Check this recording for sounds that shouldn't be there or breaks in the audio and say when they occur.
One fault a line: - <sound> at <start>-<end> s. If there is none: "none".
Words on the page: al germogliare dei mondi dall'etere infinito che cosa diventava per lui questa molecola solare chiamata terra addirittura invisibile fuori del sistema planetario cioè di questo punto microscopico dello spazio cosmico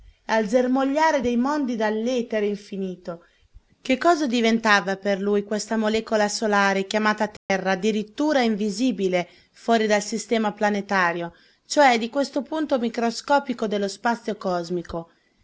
- dropout at 7.4-7.5 s